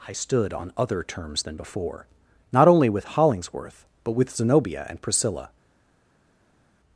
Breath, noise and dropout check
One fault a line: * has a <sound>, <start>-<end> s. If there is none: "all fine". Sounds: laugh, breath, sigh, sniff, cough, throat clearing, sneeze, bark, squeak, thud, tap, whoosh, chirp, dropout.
all fine